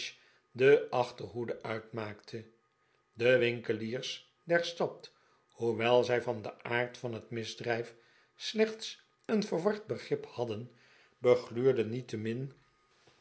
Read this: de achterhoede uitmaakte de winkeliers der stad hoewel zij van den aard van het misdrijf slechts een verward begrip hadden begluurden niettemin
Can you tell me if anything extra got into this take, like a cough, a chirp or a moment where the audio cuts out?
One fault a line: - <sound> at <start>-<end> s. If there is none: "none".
none